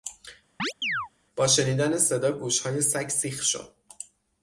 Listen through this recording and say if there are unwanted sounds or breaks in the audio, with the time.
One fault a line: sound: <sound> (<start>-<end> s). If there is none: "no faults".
sound: chirp (0.6-1.1 s)